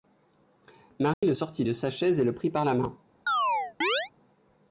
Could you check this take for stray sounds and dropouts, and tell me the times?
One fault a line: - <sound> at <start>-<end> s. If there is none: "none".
- dropout at 1.1-1.2 s
- chirp at 3.3-4.1 s